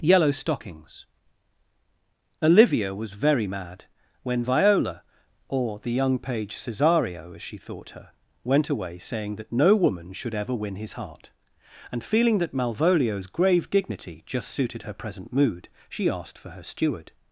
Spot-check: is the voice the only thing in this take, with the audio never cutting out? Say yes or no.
yes